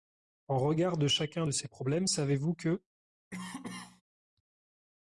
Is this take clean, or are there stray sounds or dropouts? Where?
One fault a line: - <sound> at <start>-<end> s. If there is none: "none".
- cough at 3.3-4.0 s